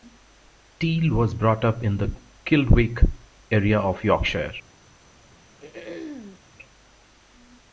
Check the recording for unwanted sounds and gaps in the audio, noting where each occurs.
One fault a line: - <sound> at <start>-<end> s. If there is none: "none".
- throat clearing at 5.6-6.4 s